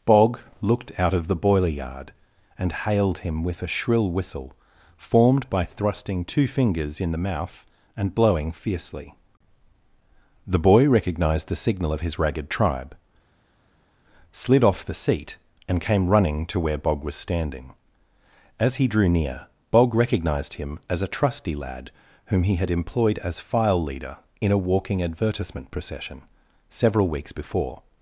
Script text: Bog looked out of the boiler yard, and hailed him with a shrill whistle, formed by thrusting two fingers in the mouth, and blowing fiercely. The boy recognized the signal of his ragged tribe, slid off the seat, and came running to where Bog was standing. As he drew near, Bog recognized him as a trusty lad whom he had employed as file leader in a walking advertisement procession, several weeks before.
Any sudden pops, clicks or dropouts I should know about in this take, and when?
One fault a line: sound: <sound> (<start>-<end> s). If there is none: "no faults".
no faults